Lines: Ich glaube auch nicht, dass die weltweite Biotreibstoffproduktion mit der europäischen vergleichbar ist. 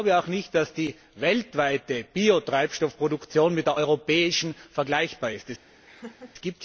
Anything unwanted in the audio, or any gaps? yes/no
yes